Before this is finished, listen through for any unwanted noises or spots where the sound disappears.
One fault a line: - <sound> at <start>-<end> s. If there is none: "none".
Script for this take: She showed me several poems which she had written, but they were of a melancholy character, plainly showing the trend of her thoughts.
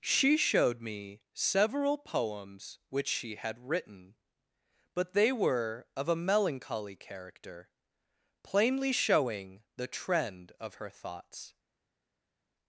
none